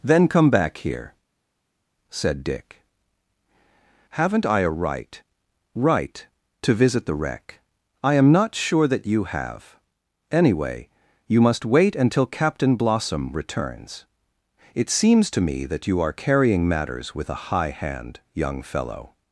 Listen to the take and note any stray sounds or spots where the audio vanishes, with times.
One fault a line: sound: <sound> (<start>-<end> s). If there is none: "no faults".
no faults